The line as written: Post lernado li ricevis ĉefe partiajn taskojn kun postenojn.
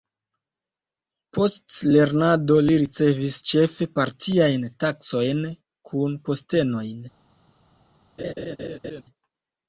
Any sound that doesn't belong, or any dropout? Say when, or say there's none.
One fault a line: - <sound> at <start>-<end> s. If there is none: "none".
- laugh at 8.2-9.0 s